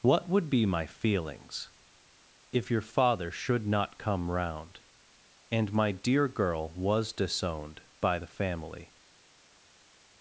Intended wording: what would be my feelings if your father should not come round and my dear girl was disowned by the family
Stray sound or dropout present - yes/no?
no